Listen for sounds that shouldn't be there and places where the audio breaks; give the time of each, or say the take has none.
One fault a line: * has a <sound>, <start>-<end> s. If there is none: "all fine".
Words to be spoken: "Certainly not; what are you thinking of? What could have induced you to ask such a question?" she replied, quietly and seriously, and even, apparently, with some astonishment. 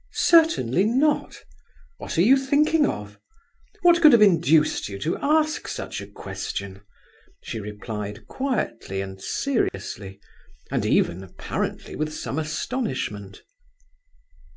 * has a dropout, 9.7-9.7 s